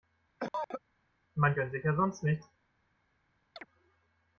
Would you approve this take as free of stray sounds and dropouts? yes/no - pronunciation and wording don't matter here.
no